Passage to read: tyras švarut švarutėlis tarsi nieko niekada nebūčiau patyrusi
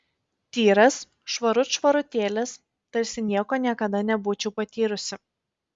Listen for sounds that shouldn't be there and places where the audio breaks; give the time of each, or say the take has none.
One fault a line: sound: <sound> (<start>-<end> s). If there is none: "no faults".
no faults